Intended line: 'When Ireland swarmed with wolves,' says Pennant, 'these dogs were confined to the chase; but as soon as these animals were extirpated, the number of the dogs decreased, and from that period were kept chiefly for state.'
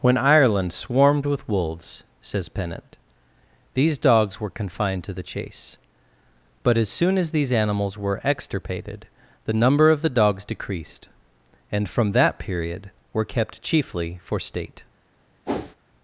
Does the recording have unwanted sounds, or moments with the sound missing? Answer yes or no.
yes